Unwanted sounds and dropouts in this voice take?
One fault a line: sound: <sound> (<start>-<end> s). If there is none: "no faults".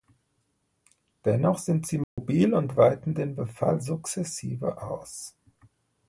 sound: dropout (2.0-2.2 s)